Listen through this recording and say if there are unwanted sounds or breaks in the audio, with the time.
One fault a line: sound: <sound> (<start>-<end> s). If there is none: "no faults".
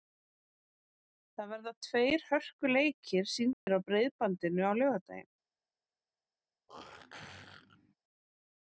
sound: dropout (3.5-3.7 s)
sound: throat clearing (6.7-8.0 s)